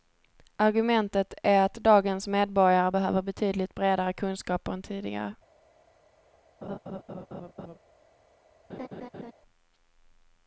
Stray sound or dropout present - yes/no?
yes